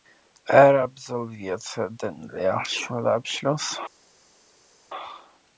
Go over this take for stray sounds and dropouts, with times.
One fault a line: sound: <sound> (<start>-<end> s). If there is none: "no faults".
no faults